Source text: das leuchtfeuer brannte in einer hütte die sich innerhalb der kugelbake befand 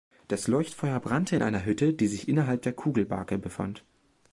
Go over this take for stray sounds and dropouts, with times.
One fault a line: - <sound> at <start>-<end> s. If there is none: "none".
none